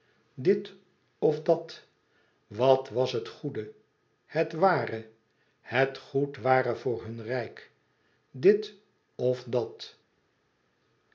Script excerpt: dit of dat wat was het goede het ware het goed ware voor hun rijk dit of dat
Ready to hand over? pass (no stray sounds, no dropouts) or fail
pass